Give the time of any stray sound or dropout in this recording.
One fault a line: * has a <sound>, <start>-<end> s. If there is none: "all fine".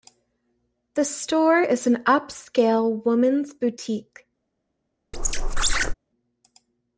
* has a squeak, 5.1-5.9 s